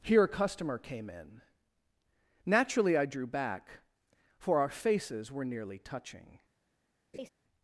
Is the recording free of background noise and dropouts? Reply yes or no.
no